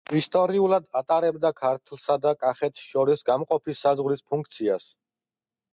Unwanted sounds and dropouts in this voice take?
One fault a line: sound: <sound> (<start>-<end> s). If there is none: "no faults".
no faults